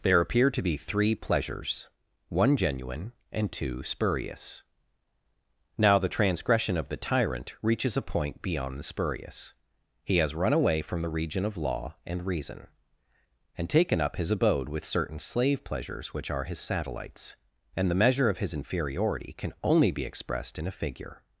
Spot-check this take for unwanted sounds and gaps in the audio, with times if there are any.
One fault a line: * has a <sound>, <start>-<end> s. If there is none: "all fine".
all fine